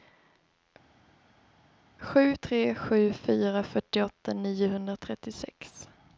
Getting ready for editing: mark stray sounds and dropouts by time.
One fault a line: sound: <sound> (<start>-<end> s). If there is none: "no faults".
no faults